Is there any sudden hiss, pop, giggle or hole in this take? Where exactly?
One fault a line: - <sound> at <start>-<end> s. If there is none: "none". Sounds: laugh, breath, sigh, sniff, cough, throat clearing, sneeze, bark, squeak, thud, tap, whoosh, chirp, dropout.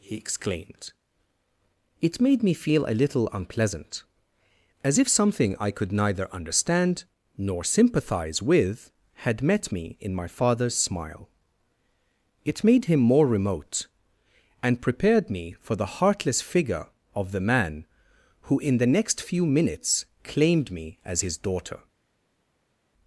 none